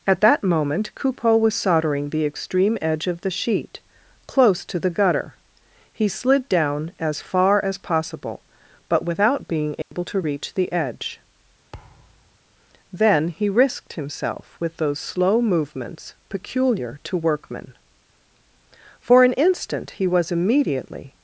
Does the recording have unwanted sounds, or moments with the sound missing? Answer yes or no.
yes